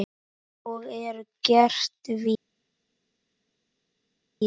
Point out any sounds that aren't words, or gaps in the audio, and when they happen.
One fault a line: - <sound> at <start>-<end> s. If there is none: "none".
none